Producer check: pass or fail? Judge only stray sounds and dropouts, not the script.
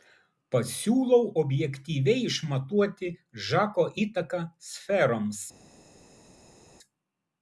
pass